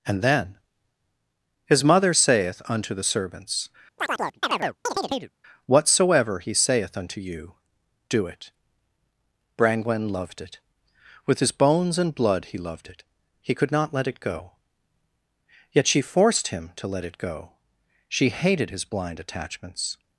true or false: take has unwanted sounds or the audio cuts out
true